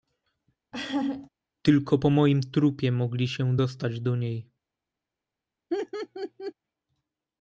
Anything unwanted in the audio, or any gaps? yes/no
yes